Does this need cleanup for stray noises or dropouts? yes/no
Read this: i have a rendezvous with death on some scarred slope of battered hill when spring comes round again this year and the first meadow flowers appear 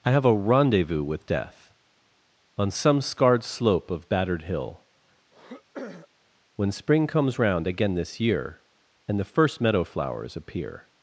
yes